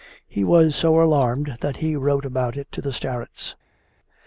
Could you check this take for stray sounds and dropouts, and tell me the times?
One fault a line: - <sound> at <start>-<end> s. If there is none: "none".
none